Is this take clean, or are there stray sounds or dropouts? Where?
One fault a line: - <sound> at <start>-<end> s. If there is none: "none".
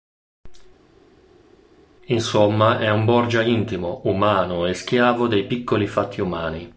none